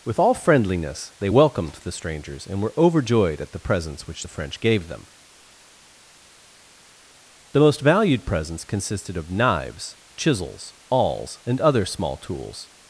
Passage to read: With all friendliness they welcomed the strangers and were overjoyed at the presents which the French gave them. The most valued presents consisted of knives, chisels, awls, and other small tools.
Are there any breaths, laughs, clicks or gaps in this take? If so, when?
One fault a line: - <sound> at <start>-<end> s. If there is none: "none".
none